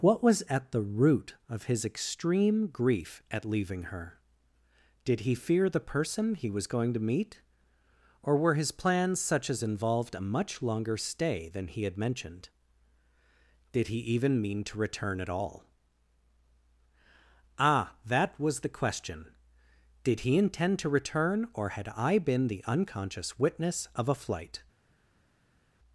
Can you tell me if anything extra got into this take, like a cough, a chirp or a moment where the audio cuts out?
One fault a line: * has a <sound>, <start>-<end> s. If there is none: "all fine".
all fine